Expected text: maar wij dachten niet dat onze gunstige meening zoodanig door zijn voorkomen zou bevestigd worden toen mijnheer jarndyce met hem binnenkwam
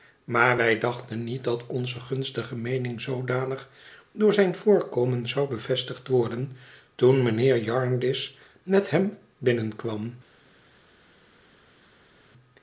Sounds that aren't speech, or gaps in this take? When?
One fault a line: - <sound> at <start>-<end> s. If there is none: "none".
none